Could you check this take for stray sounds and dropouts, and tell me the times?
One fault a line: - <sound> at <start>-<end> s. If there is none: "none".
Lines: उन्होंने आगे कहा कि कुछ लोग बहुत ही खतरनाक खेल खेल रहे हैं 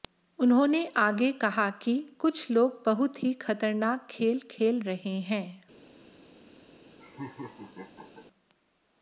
- laugh at 7.0-8.3 s